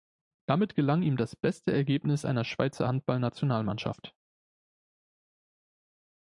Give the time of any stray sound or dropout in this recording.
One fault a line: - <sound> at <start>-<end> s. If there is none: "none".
none